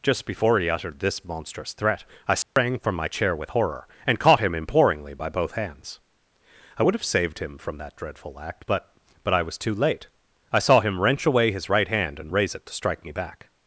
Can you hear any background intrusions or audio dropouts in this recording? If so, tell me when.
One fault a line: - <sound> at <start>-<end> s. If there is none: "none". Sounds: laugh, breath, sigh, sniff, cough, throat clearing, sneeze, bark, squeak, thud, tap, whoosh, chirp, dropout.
- dropout at 2.4-2.6 s